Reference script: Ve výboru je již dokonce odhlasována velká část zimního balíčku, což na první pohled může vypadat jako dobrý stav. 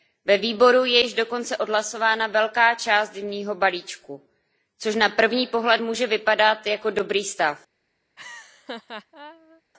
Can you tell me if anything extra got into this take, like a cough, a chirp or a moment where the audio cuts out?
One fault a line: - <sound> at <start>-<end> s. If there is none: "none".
- laugh at 8.2-9.6 s